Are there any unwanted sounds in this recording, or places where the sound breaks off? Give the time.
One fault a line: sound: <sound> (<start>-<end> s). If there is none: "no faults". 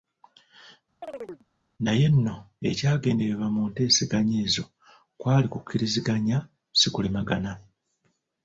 sound: chirp (1.0-1.5 s)